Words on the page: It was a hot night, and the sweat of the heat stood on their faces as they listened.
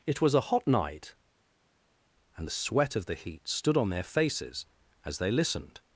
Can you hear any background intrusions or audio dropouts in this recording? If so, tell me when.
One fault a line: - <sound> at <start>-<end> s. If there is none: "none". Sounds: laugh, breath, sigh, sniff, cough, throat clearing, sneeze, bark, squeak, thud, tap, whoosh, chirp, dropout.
none